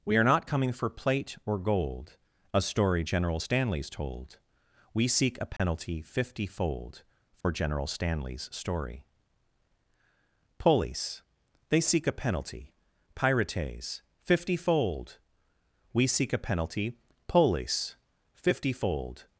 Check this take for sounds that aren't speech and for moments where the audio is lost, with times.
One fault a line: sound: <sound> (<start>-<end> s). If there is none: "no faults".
sound: dropout (5.6-5.6 s)
sound: dropout (7.4-7.4 s)